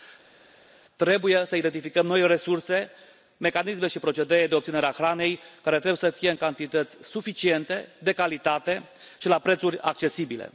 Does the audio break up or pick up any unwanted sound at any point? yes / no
no